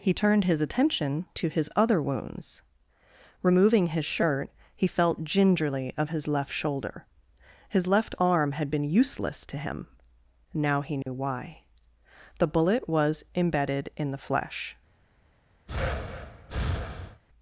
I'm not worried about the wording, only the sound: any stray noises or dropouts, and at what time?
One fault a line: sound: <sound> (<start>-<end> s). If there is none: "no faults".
sound: dropout (11.0-11.1 s)
sound: breath (15.7-17.2 s)